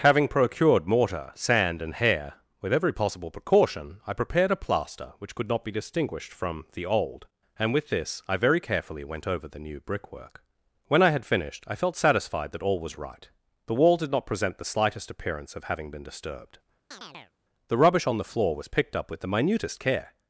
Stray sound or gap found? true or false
true